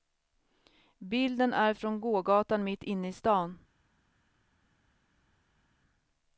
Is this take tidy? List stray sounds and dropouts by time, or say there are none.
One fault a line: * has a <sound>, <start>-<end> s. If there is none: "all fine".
all fine